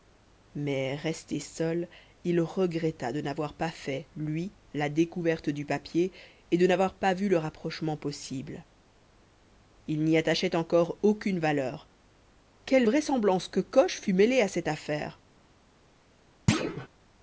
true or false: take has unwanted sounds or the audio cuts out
true